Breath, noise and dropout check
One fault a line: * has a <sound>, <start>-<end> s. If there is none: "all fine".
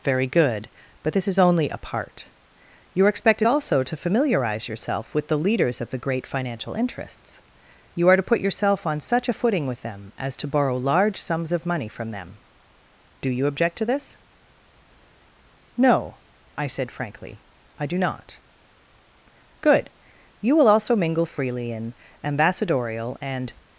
all fine